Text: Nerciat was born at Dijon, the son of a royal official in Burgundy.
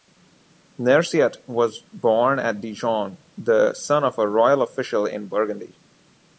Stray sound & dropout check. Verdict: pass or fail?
pass